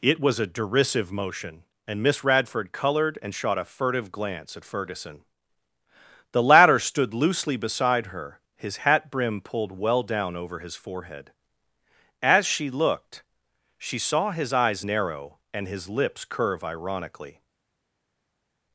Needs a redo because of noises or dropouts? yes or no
no